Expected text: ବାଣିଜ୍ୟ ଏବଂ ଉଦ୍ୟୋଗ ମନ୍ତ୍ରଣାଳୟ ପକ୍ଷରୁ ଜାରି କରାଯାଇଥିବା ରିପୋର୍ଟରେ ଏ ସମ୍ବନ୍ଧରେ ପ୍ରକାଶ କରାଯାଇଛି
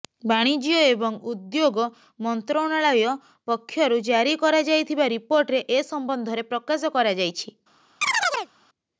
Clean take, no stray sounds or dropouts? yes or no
no